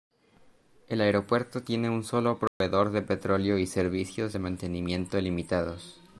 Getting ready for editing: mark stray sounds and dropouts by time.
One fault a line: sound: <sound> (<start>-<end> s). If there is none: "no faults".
sound: dropout (2.5-2.6 s)